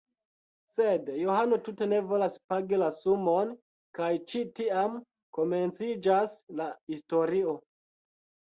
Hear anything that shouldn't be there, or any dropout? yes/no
no